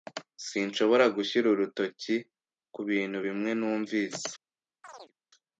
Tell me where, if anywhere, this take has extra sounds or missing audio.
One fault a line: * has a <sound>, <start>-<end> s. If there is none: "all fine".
* has a chirp, 4.8-5.1 s